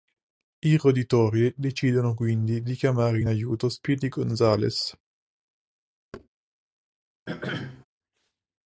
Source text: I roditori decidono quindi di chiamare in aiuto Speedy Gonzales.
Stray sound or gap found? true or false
true